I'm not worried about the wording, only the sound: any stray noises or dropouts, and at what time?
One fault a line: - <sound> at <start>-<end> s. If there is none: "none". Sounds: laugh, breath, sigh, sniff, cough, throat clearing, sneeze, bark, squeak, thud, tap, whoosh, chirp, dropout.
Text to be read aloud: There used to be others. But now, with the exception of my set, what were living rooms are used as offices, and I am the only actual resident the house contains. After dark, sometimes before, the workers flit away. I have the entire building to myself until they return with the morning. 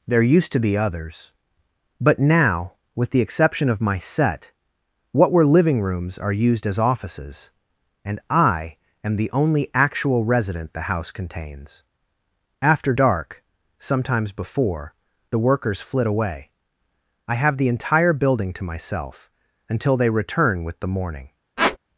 - squeak at 21.6-21.8 s